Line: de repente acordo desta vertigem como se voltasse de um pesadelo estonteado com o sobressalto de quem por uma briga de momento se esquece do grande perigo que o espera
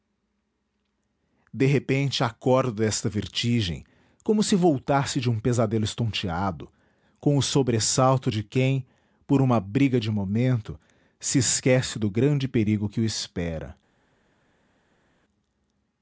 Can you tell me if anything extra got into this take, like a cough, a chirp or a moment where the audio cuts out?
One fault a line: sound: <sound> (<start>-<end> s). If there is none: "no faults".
no faults